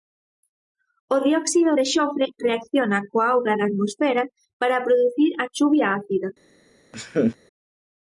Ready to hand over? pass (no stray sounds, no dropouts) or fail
fail